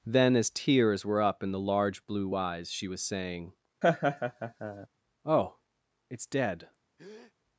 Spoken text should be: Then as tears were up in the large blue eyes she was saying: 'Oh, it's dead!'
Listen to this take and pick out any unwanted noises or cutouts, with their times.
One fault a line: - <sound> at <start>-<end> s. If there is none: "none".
- laugh at 3.8-4.9 s
- breath at 7.0-7.3 s